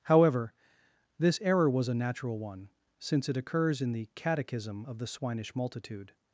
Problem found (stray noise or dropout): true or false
false